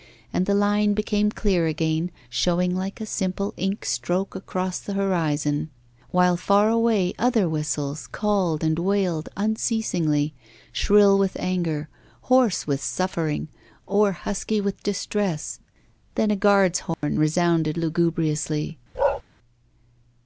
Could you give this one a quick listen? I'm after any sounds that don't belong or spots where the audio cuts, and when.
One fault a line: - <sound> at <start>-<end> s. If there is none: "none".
- dropout at 16.9-17.0 s
- bark at 18.9-19.2 s